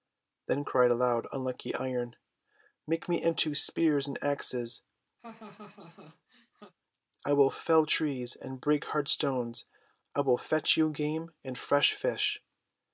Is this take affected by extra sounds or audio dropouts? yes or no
yes